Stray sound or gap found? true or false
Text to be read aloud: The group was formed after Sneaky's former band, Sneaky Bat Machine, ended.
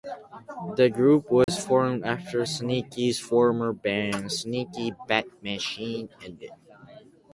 true